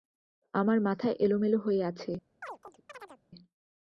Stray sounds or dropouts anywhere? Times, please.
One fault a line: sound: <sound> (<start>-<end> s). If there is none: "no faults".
sound: chirp (2.4-3.2 s)